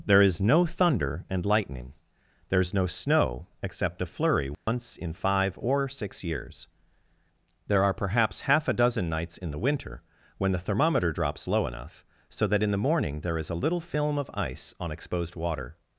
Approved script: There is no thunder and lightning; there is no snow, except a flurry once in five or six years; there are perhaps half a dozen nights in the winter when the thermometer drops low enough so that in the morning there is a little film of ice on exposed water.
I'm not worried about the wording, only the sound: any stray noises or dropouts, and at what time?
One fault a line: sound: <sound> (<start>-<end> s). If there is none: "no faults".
sound: dropout (4.5-4.7 s)